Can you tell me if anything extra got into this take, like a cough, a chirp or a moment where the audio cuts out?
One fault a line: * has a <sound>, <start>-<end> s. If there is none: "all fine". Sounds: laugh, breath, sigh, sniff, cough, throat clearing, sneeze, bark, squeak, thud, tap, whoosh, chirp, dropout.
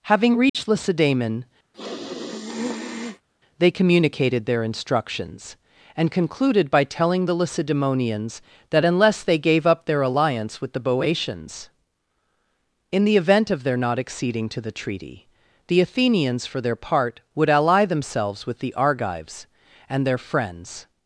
* has a dropout, 0.5-0.5 s
* has a sniff, 1.7-3.3 s